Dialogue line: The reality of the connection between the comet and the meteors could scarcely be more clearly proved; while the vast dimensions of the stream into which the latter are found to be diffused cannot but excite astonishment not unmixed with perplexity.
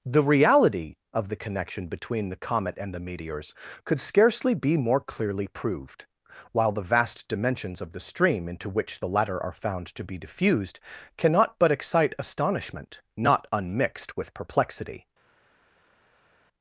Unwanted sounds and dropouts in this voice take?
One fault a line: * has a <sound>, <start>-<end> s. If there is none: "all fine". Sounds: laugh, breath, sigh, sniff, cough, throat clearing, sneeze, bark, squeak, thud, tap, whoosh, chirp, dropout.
all fine